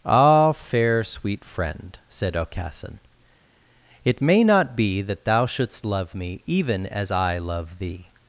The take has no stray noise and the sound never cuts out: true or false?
true